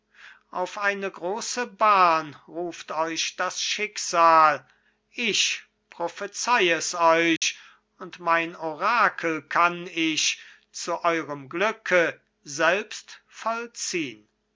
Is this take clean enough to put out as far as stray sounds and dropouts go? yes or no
no